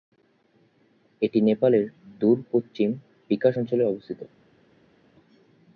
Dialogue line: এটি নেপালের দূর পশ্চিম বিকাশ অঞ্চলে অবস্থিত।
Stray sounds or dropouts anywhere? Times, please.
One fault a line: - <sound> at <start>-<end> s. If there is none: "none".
none